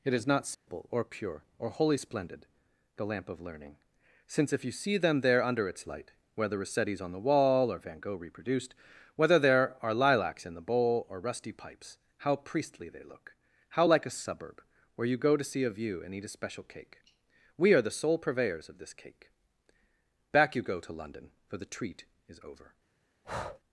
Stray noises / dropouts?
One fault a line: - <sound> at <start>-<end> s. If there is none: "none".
- dropout at 0.5-0.7 s
- breath at 23.2-23.6 s